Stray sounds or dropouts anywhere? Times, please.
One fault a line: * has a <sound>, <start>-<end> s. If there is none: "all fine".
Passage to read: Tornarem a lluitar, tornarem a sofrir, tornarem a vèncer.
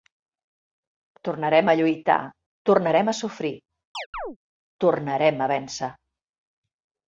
* has a chirp, 3.9-4.4 s